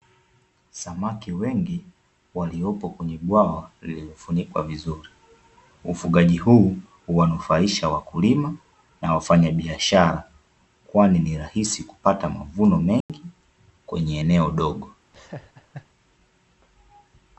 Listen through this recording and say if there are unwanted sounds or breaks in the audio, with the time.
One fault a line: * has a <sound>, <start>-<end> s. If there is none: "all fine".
* has a dropout, 13.0-13.1 s
* has a laugh, 15.1-15.9 s